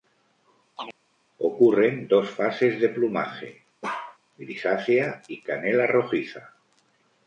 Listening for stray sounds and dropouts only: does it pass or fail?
fail